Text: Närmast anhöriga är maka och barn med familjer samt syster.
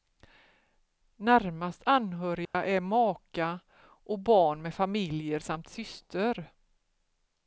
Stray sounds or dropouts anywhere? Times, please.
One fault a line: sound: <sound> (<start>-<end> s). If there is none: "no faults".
sound: dropout (2.5-2.5 s)